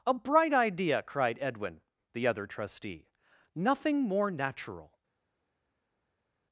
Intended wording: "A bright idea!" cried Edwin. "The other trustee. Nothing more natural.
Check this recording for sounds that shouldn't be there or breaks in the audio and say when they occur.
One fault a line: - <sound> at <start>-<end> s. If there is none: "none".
none